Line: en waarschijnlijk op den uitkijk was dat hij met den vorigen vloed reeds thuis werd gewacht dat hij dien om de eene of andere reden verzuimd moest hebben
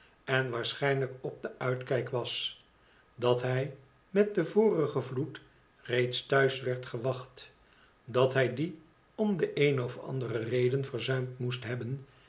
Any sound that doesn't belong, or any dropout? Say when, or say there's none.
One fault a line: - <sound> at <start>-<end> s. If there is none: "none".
none